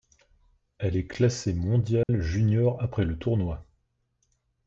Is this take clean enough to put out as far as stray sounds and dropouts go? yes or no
no